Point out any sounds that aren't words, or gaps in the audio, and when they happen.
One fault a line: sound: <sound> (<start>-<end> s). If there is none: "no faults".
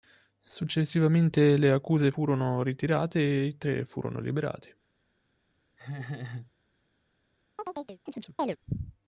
sound: laugh (5.8-6.5 s)
sound: chirp (7.6-8.6 s)